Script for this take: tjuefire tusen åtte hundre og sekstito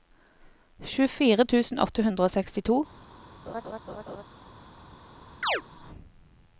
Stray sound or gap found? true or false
true